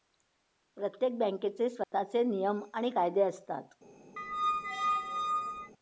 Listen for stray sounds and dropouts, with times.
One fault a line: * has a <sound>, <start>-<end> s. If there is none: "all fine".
* has a dropout, 1.8-1.9 s
* has a squeak, 4.2-5.7 s